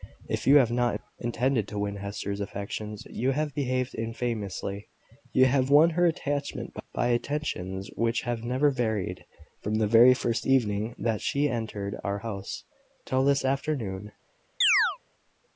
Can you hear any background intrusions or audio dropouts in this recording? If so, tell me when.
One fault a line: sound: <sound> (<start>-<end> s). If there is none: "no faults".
sound: chirp (14.6-15.0 s)